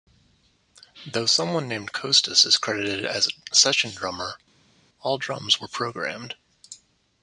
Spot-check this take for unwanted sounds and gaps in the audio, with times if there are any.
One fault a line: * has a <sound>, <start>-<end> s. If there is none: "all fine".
all fine